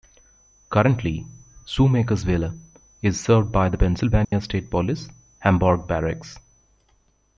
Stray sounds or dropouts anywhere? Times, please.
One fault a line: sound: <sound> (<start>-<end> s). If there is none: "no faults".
sound: dropout (4.2-4.3 s)